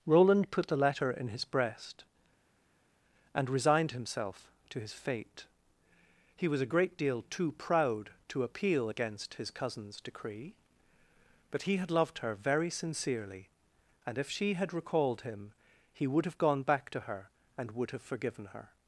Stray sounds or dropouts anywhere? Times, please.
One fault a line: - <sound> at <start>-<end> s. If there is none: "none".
none